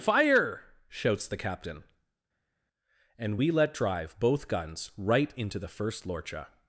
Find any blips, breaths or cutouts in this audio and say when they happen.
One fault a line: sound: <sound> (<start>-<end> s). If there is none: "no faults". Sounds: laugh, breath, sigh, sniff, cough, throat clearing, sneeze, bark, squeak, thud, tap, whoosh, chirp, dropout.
no faults